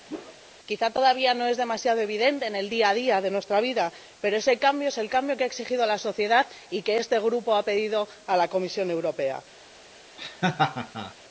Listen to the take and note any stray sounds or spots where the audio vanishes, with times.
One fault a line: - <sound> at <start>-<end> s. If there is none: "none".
- whoosh at 0.1-0.4 s
- laugh at 10.2-11.1 s